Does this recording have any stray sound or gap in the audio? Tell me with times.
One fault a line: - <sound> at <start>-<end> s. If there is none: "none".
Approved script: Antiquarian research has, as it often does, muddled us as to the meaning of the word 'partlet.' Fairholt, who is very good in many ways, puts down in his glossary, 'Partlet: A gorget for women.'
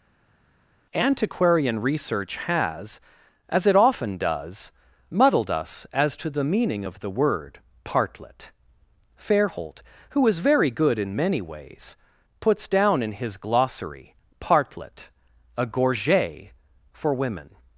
none